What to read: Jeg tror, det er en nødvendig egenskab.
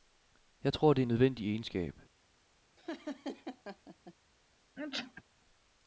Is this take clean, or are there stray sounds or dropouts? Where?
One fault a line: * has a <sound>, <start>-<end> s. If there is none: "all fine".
* has a laugh, 2.8-4.1 s
* has a sneeze, 4.8-5.2 s